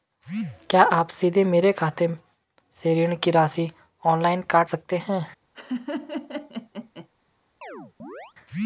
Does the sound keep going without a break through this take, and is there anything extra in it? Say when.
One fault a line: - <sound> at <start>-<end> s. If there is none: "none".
- laugh at 5.5-7.1 s
- chirp at 7.6-8.3 s